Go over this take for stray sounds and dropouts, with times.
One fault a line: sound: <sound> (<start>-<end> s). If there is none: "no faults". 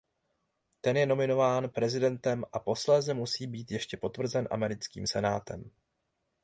no faults